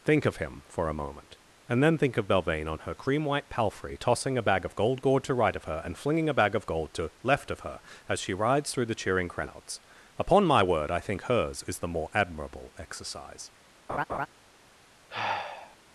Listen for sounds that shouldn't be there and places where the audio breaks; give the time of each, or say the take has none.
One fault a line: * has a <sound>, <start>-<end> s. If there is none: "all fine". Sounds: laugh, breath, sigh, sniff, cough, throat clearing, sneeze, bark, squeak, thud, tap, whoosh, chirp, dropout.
* has a laugh, 13.9-14.3 s
* has a sigh, 15.1-15.8 s